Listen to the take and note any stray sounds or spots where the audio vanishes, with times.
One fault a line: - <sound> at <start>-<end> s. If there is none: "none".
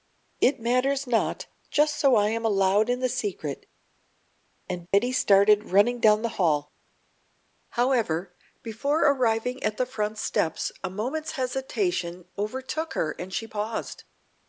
- dropout at 4.9-4.9 s